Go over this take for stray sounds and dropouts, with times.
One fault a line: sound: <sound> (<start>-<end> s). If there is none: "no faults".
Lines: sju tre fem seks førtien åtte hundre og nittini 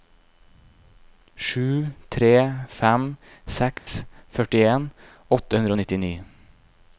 sound: dropout (3.8-3.9 s)